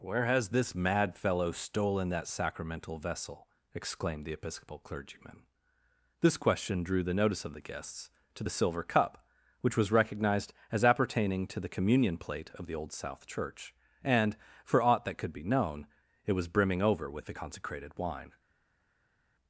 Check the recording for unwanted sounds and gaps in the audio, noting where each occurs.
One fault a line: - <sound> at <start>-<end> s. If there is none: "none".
none